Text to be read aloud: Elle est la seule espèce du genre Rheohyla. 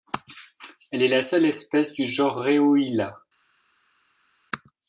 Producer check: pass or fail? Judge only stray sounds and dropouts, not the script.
pass